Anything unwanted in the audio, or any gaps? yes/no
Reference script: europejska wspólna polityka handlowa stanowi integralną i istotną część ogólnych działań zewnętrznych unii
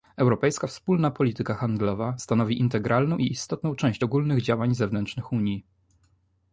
no